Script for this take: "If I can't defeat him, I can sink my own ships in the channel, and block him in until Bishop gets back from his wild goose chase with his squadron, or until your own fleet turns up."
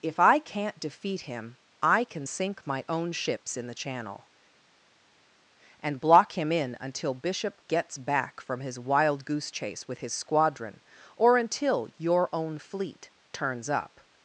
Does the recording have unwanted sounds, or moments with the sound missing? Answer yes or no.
no